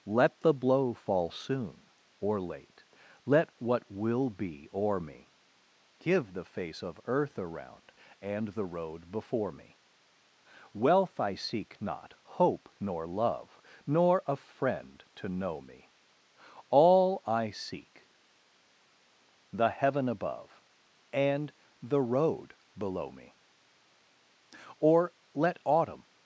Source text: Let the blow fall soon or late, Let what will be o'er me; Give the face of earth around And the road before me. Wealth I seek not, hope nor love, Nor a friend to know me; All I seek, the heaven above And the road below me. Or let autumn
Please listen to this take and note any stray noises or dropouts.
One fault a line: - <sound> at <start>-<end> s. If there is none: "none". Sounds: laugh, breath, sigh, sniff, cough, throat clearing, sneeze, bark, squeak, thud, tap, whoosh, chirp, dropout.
none